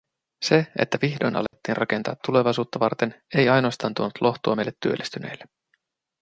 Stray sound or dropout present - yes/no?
yes